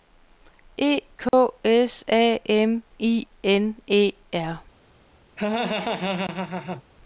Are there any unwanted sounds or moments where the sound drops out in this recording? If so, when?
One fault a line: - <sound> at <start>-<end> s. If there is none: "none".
- dropout at 1.3-1.3 s
- laugh at 5.4-6.8 s